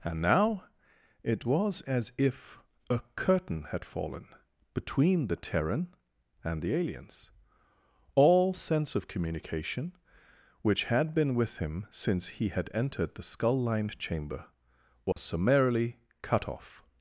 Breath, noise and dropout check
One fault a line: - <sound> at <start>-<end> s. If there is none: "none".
- dropout at 15.1-15.2 s